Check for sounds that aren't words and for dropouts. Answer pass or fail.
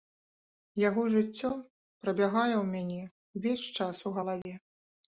fail